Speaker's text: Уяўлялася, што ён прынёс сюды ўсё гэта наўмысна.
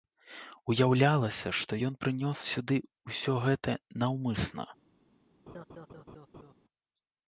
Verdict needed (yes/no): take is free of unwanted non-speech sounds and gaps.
no